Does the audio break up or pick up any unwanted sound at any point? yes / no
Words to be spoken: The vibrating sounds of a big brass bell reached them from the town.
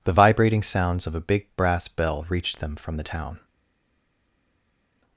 no